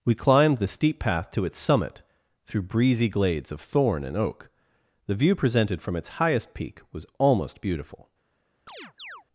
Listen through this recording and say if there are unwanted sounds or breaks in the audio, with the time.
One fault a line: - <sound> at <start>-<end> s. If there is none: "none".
- chirp at 8.7-9.2 s